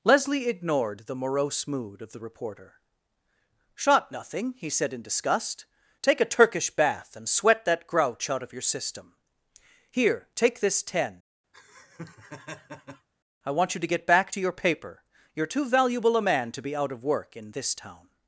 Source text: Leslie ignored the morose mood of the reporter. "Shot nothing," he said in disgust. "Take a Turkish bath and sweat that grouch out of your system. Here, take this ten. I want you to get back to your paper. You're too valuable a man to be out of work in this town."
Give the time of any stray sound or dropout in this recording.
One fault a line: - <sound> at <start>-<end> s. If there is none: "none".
- laugh at 11.5-13.1 s